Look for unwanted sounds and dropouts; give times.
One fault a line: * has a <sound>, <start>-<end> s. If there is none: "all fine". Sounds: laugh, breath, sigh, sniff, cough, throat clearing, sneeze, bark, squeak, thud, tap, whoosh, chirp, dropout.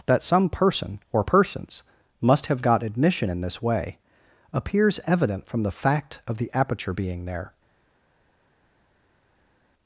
all fine